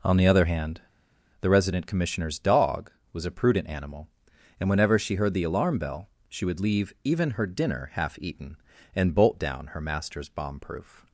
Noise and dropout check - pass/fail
pass